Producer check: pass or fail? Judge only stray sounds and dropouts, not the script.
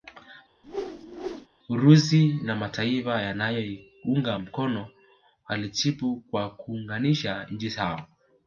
fail